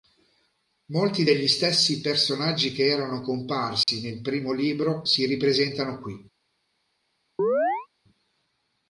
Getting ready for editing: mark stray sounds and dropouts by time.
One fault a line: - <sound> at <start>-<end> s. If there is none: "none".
- dropout at 3.8-3.9 s
- chirp at 7.4-7.9 s